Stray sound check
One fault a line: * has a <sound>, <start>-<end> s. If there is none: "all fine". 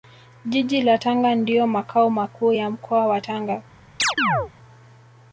* has a chirp, 4.0-4.5 s